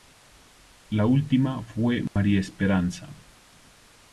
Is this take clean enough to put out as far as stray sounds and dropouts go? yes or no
no